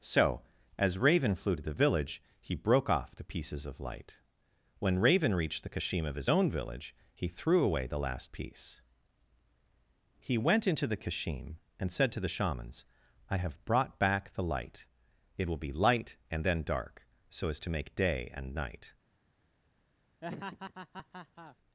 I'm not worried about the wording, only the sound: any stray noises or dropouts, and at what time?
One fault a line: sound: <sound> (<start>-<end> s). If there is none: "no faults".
sound: laugh (20.2-21.6 s)